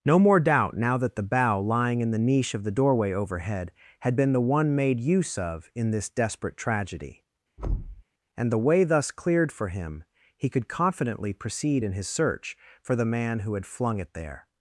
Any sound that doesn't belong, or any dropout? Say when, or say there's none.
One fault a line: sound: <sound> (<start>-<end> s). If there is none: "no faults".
sound: thud (7.6-8.0 s)